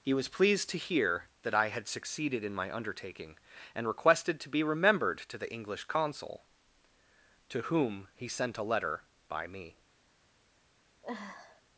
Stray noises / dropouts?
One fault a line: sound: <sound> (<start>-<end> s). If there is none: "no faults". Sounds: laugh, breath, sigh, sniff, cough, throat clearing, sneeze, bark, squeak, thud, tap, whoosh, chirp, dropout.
sound: sniff (11.0-11.6 s)